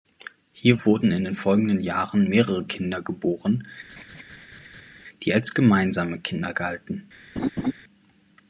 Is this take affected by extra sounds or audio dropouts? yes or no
yes